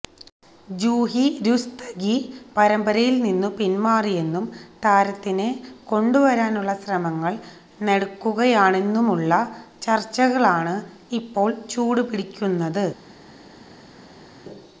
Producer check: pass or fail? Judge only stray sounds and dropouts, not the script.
pass